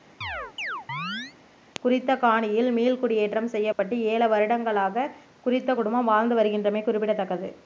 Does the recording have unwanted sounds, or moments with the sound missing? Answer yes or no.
yes